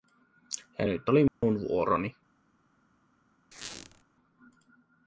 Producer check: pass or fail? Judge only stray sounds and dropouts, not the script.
fail